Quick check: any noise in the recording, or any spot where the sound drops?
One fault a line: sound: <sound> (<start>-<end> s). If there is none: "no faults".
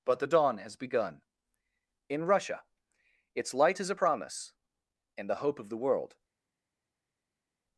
no faults